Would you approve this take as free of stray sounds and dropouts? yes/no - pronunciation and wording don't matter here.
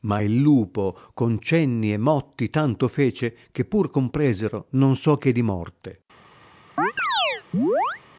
no